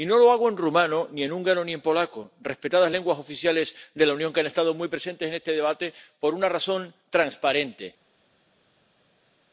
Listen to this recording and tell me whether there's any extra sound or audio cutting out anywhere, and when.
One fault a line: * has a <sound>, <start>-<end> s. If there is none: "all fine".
all fine